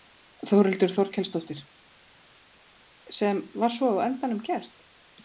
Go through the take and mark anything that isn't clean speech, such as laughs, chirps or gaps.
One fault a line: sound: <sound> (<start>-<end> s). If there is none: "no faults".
no faults